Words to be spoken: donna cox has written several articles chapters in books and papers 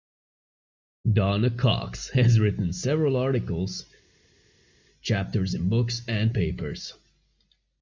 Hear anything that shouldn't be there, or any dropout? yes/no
no